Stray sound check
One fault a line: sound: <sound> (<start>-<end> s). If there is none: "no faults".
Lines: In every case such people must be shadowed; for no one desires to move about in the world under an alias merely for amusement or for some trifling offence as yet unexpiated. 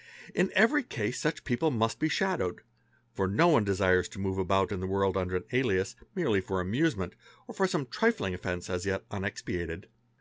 no faults